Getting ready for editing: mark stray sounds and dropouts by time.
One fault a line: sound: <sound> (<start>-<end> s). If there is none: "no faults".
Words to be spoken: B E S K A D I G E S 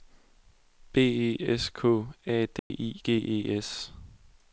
sound: dropout (2.6-2.7 s)